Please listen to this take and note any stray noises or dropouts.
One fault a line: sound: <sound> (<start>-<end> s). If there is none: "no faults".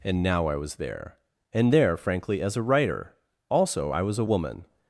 no faults